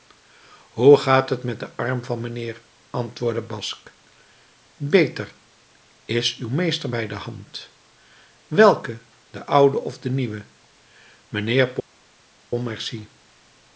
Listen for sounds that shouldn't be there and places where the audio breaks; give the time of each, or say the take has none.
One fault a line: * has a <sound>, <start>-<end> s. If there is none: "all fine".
all fine